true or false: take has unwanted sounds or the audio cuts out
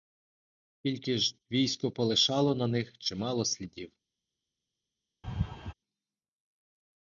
true